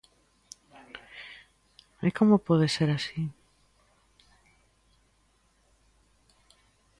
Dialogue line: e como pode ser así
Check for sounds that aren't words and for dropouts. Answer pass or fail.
pass